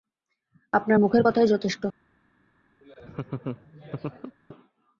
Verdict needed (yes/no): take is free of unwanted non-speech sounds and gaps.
no